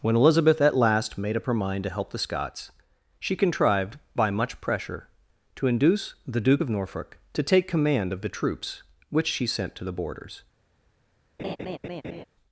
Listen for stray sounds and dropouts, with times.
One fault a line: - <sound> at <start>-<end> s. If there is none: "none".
- laugh at 11.4-12.2 s